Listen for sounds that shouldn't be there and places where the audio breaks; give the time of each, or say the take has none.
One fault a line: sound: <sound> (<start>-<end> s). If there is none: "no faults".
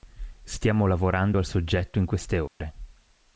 sound: dropout (2.5-2.6 s)